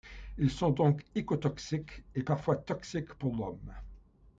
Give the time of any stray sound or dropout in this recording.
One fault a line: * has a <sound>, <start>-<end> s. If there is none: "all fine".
all fine